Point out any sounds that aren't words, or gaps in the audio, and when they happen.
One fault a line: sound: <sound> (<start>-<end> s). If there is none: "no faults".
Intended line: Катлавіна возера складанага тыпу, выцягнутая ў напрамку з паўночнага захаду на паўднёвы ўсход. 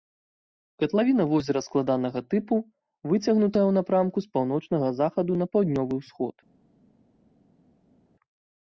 no faults